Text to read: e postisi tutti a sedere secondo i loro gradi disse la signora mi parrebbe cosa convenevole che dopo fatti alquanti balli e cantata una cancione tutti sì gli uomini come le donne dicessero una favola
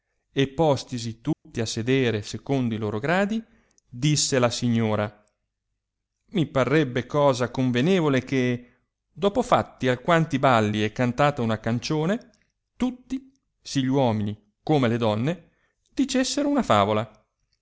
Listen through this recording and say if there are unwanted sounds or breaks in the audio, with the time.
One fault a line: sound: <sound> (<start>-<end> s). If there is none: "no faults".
sound: dropout (1.3-1.5 s)